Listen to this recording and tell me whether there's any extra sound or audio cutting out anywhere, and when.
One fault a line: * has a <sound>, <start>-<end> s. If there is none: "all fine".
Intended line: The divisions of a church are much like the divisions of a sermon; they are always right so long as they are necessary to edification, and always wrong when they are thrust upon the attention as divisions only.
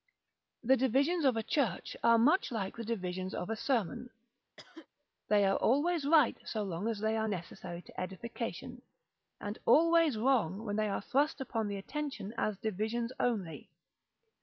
* has a cough, 4.6-4.9 s